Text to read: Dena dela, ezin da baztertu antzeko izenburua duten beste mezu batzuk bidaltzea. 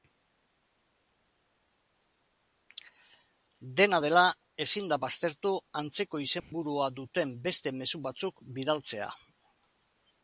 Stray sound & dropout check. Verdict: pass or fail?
fail